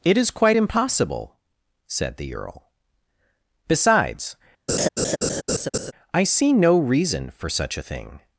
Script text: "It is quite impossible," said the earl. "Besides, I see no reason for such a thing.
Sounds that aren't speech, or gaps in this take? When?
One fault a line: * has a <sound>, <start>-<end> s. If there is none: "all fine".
* has a laugh, 4.7-5.9 s